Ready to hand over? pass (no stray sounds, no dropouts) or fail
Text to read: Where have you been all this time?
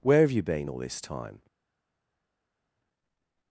pass